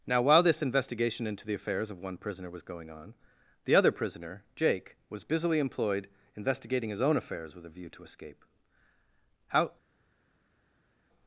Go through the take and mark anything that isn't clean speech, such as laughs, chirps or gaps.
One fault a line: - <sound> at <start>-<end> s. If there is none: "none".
none